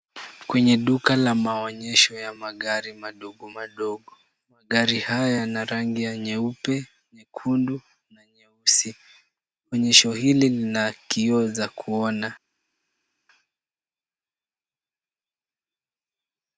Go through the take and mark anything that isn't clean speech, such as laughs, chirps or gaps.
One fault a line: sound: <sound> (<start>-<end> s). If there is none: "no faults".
no faults